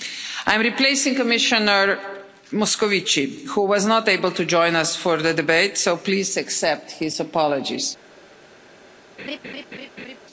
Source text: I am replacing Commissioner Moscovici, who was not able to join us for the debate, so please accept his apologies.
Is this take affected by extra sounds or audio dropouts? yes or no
yes